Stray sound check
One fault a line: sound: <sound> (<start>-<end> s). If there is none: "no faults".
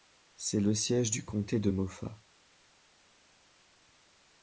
no faults